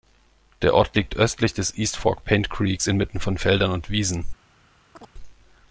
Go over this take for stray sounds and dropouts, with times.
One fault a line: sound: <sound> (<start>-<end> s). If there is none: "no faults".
sound: chirp (4.9-5.1 s)